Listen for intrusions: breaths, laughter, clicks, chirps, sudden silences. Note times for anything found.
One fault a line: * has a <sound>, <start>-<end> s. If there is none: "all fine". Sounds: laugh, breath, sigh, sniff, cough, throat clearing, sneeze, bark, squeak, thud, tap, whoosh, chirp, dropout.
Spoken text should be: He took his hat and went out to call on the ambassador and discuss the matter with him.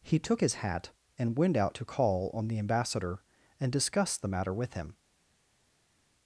all fine